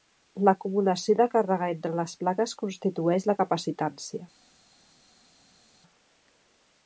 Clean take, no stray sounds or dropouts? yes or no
yes